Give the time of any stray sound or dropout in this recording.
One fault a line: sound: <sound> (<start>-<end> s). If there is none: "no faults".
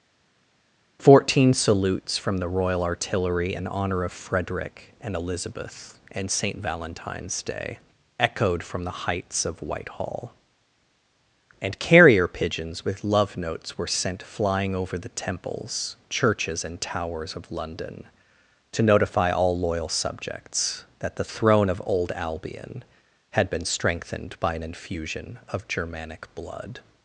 no faults